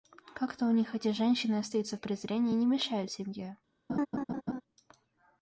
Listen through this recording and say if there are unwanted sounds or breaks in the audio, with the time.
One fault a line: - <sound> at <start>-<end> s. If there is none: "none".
- laugh at 3.9-4.6 s